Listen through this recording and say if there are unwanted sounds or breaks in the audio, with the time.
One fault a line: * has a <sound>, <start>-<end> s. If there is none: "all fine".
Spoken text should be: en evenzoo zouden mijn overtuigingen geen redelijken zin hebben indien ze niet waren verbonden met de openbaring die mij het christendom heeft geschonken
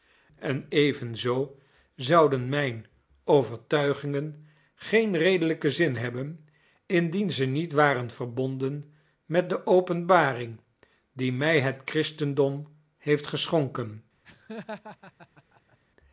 * has a laugh, 14.2-15.8 s